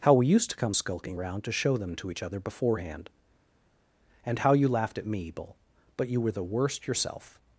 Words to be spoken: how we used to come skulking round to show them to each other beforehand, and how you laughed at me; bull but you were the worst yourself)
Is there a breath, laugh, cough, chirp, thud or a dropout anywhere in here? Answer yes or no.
no